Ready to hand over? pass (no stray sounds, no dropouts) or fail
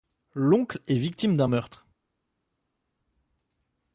pass